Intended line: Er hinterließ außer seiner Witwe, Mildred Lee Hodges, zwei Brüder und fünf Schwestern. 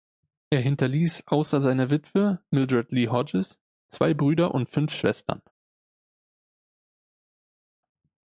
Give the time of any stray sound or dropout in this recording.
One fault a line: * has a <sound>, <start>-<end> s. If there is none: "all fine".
all fine